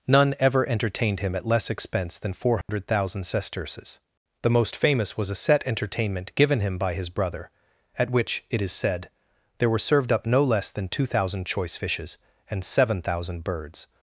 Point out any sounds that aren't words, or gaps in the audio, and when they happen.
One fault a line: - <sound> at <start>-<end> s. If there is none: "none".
- dropout at 2.6-2.7 s